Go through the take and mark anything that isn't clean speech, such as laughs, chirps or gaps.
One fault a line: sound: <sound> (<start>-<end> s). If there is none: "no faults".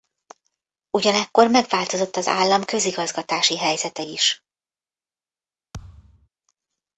sound: thud (5.7-6.3 s)